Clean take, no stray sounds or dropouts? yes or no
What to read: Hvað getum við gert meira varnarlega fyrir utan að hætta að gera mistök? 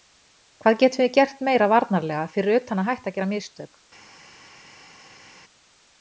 yes